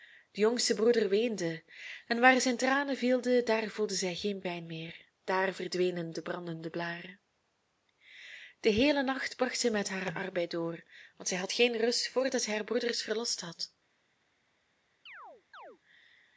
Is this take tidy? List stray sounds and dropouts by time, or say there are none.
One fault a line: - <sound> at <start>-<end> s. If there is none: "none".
- chirp at 15.1-15.8 s